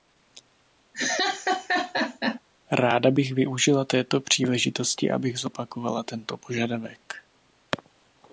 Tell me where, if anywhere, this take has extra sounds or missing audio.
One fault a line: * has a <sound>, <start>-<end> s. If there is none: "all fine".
* has a laugh, 0.9-2.4 s